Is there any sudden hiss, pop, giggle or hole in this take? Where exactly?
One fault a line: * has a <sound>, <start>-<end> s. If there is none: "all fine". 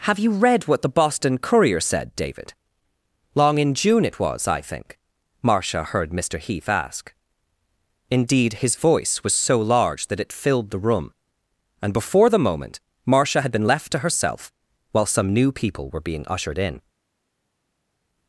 all fine